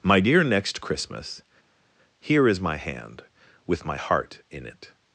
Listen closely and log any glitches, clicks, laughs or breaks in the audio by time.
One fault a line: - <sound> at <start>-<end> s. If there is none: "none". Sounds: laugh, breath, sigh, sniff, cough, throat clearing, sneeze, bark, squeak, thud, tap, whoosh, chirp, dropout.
none